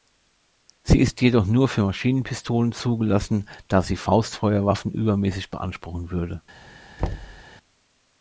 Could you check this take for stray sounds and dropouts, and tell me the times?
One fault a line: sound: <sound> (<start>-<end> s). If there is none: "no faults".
sound: thud (7.0-7.4 s)